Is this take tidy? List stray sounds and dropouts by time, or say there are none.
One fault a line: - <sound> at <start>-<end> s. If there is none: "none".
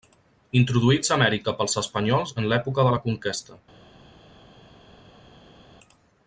none